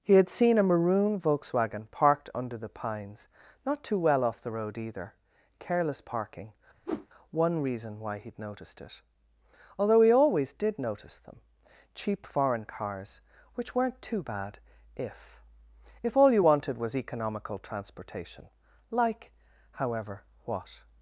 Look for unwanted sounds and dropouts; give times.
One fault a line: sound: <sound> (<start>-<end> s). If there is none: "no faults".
sound: whoosh (6.9-7.1 s)